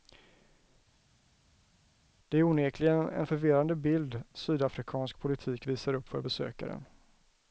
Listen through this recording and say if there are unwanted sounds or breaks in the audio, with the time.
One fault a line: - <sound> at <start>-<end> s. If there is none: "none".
none